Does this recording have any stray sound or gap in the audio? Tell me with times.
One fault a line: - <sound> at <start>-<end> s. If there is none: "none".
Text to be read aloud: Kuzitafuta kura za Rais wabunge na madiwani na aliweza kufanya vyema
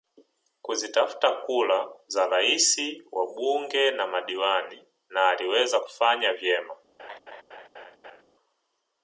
- laugh at 7.0-8.2 s